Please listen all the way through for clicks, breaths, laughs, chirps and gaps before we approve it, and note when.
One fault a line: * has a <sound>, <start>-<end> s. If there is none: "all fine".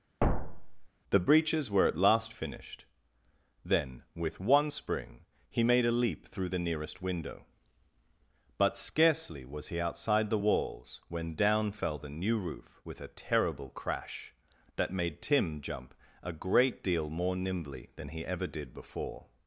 * has a thud, 0.2-0.9 s